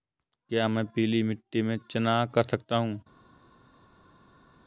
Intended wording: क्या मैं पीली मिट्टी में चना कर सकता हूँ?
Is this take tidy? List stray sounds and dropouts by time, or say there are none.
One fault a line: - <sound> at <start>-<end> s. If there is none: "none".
none